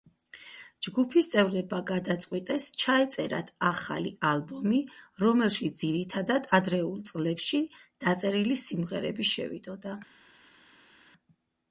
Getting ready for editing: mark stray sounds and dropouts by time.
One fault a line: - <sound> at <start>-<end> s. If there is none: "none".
none